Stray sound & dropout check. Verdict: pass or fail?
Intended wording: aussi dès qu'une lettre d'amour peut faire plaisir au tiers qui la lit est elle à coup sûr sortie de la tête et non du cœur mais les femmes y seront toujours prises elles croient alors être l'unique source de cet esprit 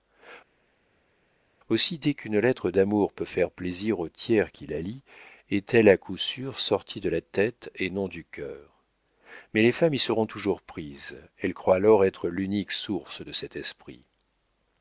pass